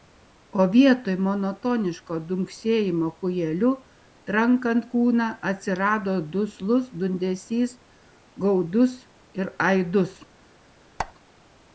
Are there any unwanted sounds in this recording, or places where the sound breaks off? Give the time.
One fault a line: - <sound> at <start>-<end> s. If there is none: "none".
- squeak at 11.0-11.1 s